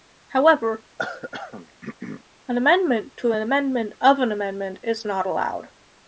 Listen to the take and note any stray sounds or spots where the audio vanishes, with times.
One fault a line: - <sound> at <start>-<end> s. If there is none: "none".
- throat clearing at 1.0-2.2 s